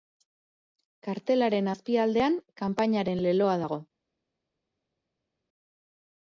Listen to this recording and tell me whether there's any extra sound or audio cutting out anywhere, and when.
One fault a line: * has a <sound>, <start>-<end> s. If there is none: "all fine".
all fine